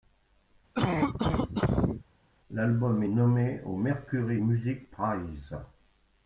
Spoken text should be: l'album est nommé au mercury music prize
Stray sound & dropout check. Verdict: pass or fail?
fail